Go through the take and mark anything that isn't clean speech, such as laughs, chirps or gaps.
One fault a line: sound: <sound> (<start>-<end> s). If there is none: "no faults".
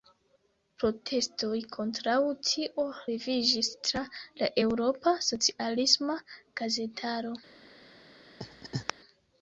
sound: laugh (8.4-8.9 s)